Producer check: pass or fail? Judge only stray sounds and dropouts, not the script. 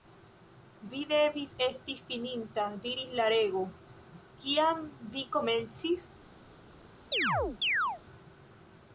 fail